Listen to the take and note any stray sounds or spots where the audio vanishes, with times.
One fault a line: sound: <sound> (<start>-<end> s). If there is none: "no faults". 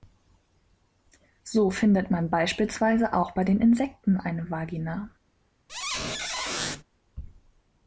sound: squeak (5.7-6.8 s)